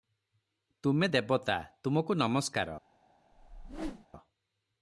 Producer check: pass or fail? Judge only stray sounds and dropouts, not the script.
fail